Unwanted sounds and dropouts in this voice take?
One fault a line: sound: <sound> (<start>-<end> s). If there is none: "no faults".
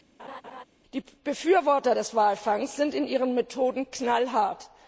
sound: laugh (0.2-0.6 s)